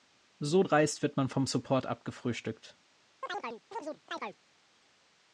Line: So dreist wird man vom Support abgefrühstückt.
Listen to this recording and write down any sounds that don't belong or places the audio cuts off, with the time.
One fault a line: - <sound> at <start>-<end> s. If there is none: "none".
- chirp at 3.2-4.4 s